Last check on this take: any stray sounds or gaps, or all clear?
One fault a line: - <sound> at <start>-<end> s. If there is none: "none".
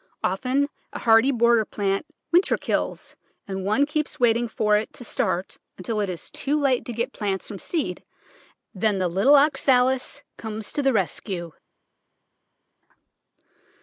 none